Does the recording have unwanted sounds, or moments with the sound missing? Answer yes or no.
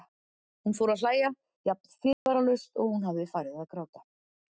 yes